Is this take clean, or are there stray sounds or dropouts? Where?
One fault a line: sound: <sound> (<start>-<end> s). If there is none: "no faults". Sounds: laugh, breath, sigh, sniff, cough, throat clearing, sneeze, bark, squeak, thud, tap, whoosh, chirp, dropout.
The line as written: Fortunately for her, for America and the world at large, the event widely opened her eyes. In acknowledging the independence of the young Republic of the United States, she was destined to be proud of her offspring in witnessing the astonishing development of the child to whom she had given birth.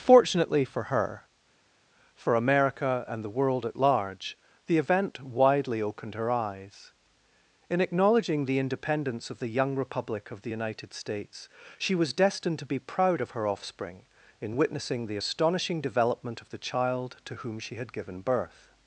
no faults